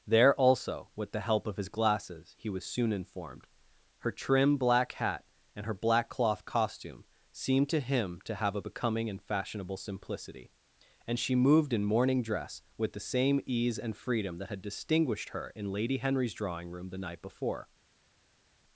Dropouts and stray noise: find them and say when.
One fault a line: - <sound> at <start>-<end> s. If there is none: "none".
none